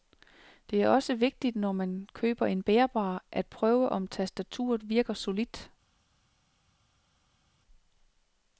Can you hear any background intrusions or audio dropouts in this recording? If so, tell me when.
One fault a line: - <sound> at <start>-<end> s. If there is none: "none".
none